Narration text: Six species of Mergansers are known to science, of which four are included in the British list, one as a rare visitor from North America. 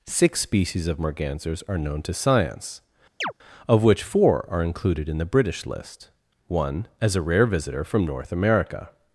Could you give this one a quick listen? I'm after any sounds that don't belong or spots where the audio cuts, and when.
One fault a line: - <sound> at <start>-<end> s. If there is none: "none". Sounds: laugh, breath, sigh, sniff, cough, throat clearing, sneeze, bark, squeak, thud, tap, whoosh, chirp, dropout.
- chirp at 3.2-3.3 s